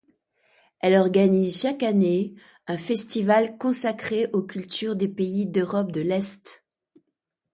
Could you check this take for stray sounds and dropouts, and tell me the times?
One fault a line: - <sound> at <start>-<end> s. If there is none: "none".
none